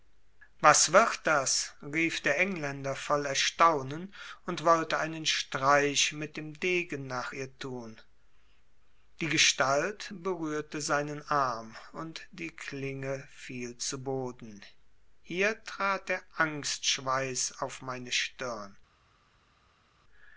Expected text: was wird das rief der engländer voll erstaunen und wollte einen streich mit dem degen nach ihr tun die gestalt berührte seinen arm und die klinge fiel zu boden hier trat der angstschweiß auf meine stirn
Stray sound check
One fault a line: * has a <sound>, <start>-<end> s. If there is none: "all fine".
all fine